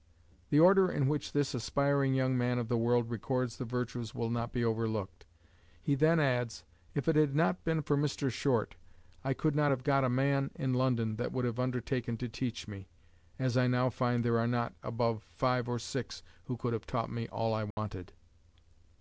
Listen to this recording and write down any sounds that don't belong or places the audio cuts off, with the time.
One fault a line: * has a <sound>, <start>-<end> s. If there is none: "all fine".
* has a dropout, 17.7-17.8 s